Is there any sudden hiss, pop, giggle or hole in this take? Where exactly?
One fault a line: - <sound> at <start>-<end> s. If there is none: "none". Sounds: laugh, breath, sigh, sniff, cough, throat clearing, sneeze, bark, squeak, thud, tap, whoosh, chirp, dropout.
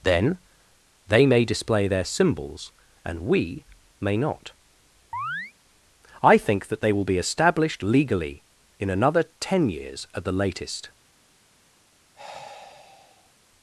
- chirp at 5.1-5.5 s
- sigh at 12.1-13.3 s